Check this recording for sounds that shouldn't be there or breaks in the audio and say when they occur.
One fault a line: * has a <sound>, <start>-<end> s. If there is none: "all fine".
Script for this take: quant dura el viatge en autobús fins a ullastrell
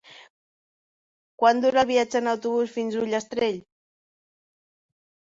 all fine